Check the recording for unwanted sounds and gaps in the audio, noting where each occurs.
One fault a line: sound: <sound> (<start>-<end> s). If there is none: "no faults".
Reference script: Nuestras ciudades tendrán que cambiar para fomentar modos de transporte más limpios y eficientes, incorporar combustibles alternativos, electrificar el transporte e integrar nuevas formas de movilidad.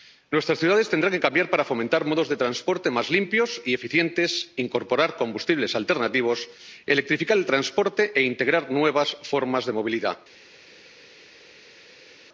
no faults